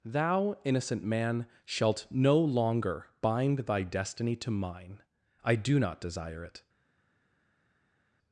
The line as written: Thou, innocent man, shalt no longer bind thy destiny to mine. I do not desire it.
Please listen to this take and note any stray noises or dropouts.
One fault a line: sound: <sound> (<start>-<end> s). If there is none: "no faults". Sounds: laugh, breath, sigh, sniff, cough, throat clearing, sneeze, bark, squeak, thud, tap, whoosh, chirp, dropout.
no faults